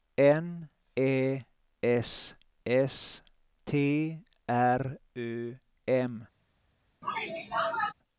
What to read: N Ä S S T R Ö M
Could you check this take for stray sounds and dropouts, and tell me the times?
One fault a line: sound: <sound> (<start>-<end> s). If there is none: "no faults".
sound: sneeze (7.0-7.9 s)